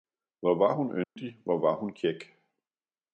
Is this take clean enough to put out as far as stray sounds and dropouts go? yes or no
no